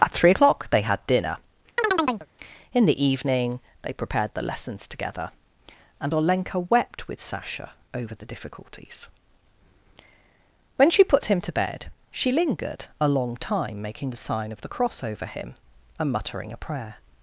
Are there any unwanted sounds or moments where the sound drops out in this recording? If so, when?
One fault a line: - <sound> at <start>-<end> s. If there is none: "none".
- chirp at 1.8-2.3 s